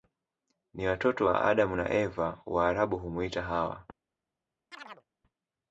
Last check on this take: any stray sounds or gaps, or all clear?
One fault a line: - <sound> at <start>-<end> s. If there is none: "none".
- chirp at 4.7-5.1 s